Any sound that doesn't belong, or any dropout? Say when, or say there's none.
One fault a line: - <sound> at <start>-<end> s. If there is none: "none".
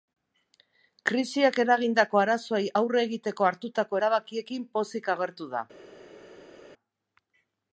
none